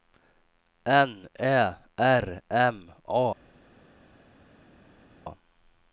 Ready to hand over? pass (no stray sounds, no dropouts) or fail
pass